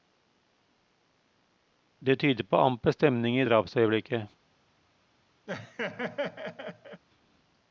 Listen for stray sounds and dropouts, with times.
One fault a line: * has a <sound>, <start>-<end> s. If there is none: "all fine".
* has a laugh, 5.5-7.0 s